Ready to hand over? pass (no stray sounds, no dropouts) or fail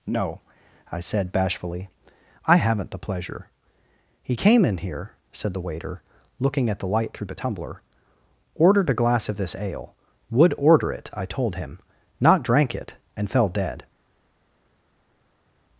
pass